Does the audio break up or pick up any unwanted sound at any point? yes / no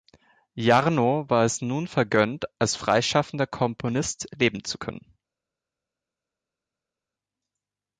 no